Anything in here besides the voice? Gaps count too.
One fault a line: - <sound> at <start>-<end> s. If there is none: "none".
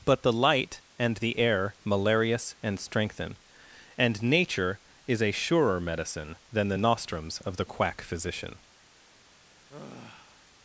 - sigh at 9.7-10.4 s